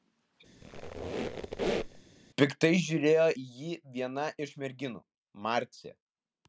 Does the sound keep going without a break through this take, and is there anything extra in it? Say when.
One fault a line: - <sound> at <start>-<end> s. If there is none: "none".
- squeak at 0.6-2.0 s